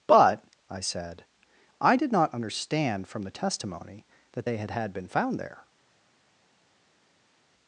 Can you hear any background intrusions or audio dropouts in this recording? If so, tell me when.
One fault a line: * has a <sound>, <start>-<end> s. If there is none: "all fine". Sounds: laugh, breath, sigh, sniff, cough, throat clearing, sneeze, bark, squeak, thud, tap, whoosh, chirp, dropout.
all fine